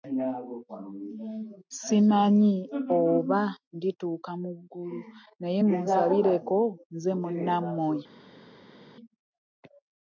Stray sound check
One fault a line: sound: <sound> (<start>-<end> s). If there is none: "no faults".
no faults